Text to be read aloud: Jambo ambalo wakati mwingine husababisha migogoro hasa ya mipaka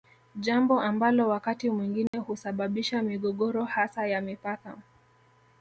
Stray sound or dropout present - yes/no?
yes